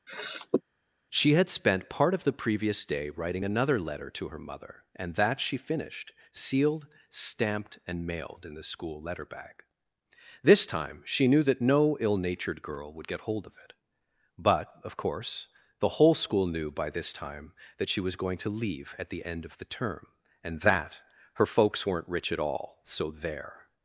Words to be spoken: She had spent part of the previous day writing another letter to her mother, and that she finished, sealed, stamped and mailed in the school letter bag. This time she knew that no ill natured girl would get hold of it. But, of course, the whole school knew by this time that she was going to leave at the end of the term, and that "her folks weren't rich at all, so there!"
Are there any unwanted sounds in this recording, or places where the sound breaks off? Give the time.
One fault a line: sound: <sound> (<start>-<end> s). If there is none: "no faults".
sound: sniff (0.1-0.6 s)